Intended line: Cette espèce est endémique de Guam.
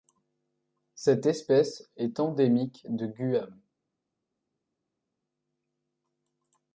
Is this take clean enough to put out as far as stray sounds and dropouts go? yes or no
yes